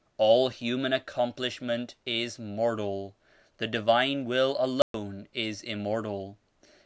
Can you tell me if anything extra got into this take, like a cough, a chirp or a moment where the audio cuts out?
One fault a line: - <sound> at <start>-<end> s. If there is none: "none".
- dropout at 4.8-4.9 s